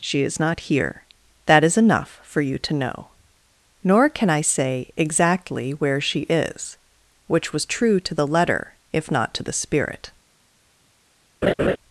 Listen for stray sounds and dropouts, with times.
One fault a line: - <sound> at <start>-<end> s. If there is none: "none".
- laugh at 11.4-11.8 s